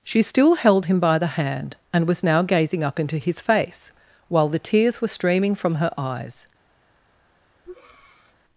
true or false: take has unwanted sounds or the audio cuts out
true